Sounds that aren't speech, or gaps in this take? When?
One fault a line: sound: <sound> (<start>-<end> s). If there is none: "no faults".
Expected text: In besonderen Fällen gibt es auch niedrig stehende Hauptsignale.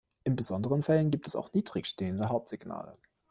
no faults